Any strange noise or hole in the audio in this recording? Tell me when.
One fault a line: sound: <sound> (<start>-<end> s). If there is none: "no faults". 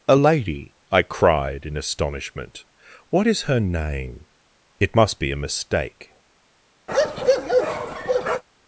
sound: bark (6.9-8.4 s)